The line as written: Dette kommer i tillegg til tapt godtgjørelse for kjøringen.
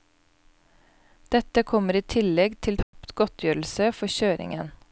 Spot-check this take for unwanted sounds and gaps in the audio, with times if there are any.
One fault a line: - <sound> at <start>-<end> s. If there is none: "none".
- dropout at 2.8-2.9 s